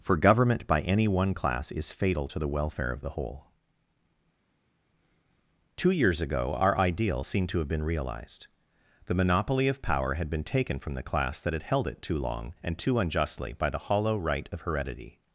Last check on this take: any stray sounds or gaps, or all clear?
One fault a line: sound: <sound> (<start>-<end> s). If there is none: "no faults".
no faults